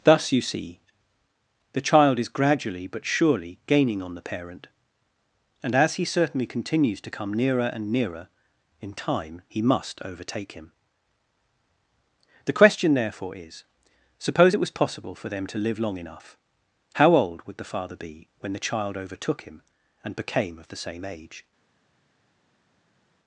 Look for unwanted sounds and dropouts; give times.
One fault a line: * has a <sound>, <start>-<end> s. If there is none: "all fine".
all fine